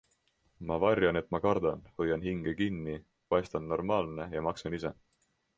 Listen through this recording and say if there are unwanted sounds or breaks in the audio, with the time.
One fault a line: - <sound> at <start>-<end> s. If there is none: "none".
none